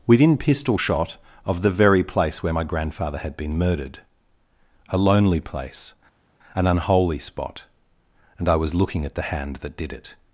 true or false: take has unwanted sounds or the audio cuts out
false